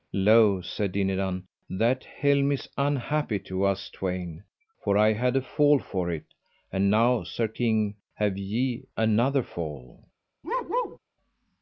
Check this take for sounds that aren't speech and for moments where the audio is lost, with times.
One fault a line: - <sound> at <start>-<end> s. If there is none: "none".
- bark at 10.4-11.0 s